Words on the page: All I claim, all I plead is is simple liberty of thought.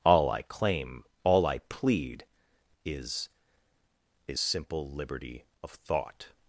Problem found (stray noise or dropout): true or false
false